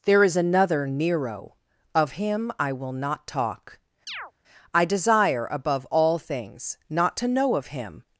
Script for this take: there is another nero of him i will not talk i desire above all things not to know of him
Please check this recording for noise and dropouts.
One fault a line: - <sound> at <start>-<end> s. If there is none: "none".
- chirp at 4.1-4.3 s